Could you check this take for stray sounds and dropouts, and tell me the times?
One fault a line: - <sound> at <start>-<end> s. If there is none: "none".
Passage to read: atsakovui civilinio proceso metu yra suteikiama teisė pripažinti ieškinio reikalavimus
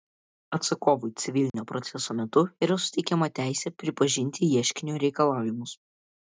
- dropout at 1.5-1.5 s